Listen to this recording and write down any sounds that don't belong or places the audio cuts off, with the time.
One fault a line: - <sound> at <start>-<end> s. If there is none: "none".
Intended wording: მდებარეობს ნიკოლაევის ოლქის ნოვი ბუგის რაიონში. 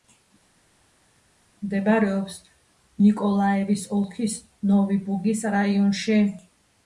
none